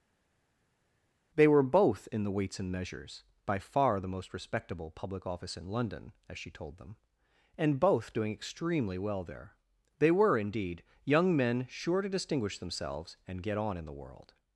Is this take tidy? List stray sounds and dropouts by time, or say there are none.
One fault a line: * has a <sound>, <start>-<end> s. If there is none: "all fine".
all fine